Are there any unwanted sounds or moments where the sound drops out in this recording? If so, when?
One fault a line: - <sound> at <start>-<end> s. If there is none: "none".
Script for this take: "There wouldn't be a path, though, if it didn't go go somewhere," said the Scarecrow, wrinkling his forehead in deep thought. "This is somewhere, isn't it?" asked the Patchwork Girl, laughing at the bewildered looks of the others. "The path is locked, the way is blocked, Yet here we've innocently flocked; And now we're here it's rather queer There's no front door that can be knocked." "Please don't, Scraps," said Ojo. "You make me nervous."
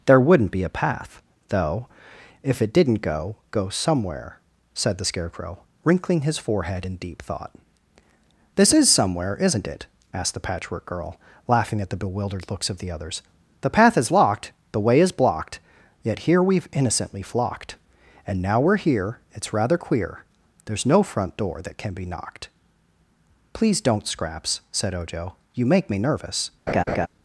- laugh at 26.7-27.1 s